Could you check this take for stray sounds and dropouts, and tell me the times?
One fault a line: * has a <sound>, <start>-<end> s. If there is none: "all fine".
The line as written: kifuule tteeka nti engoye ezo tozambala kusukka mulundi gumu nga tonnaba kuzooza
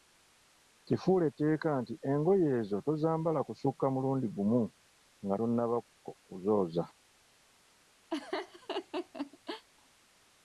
* has a laugh, 8.1-9.7 s